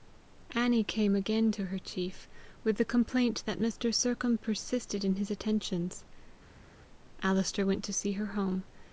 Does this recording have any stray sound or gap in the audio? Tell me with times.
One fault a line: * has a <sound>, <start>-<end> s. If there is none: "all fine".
all fine